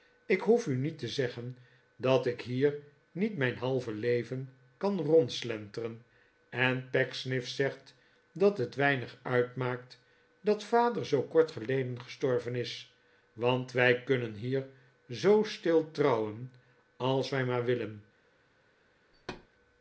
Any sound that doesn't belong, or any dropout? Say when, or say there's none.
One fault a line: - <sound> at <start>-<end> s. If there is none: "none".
- thud at 19.1-19.5 s